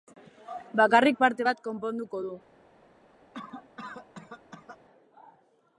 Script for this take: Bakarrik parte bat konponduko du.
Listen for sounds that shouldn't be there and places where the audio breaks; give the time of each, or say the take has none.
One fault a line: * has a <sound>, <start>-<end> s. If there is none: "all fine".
* has a cough, 3.3-4.8 s